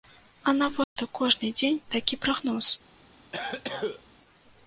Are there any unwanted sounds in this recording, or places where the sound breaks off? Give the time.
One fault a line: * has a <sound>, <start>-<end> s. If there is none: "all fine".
* has a dropout, 0.8-1.0 s
* has a cough, 3.3-4.0 s